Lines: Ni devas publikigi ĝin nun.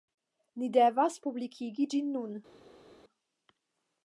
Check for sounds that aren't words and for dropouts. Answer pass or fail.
pass